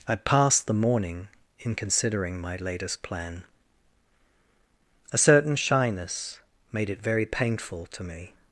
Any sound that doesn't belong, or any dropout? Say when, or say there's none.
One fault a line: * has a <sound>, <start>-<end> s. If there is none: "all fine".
all fine